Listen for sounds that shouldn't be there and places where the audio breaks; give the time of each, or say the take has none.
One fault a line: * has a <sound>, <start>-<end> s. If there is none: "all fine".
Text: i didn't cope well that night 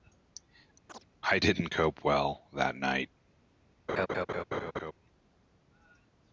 * has a chirp, 0.9-1.1 s
* has a laugh, 3.9-4.9 s